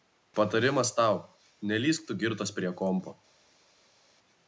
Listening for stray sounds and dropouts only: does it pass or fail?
pass